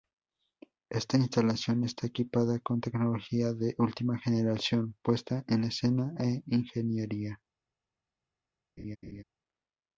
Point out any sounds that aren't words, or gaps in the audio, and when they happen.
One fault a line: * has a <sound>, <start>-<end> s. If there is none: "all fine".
* has a laugh, 8.8-9.2 s